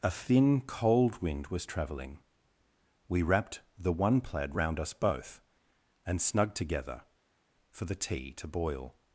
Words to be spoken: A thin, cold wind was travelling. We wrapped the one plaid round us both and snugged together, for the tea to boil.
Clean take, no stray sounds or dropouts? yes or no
yes